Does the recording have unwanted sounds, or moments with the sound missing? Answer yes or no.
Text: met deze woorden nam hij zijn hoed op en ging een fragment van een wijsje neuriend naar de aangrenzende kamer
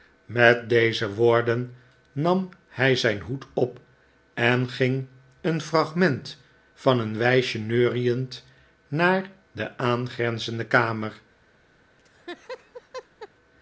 yes